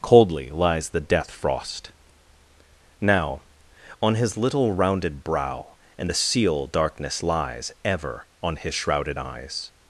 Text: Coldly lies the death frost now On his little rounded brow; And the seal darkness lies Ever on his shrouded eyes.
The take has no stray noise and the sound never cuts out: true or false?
true